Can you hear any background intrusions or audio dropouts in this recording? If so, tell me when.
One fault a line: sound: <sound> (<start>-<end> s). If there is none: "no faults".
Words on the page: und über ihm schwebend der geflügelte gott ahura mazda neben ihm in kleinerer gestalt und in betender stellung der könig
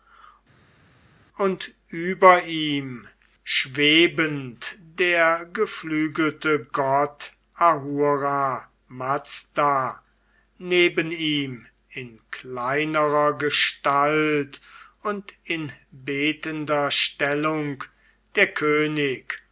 no faults